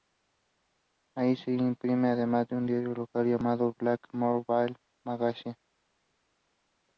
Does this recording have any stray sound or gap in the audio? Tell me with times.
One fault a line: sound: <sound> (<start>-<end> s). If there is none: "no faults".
no faults